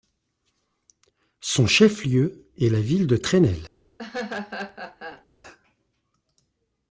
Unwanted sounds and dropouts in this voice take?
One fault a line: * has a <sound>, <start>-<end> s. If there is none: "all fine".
* has a laugh, 4.0-5.3 s